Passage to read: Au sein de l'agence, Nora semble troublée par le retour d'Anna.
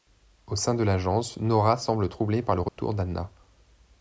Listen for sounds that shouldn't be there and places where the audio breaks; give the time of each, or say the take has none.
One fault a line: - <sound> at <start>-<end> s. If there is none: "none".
- dropout at 2.7-2.8 s